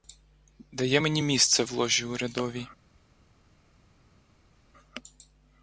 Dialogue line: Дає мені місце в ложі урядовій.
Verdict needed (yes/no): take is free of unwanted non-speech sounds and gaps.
yes